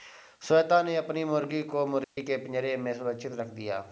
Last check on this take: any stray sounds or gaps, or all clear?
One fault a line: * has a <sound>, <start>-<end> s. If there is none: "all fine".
* has a dropout, 2.0-2.2 s